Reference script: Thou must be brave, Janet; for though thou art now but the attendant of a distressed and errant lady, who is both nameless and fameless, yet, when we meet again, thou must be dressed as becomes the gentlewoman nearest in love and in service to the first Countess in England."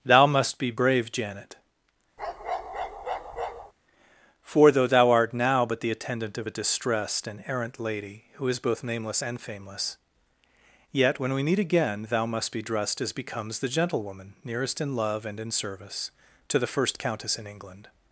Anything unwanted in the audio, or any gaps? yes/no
yes